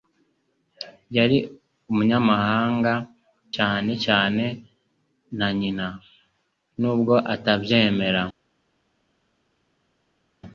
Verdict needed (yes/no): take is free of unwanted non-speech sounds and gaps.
yes